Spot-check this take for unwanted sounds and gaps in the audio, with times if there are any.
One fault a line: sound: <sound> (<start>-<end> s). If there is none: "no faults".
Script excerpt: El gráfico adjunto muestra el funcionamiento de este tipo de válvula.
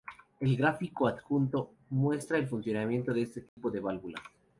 sound: dropout (3.5-3.6 s)